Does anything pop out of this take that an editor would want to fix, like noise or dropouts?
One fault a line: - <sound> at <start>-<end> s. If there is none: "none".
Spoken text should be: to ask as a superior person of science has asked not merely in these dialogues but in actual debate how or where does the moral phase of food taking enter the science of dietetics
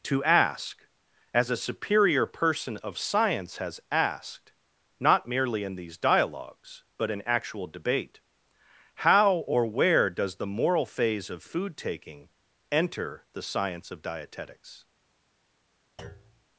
- thud at 16.0-16.5 s